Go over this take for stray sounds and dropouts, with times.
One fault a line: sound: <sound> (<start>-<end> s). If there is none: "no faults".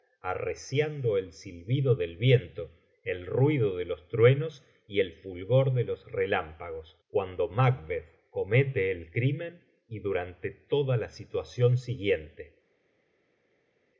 no faults